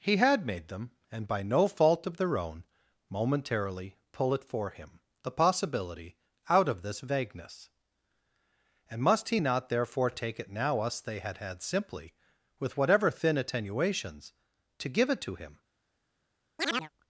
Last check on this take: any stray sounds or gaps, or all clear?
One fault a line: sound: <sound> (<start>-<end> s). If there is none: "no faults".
sound: chirp (16.6-16.9 s)